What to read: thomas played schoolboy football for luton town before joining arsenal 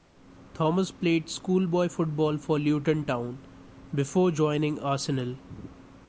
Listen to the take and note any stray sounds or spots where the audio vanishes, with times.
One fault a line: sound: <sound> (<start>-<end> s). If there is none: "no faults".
no faults